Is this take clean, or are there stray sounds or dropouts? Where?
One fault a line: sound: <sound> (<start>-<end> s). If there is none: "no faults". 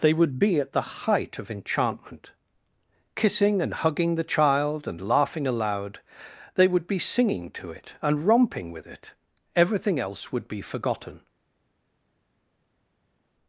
no faults